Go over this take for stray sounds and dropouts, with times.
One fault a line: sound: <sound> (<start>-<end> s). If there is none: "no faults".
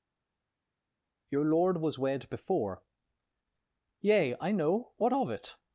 no faults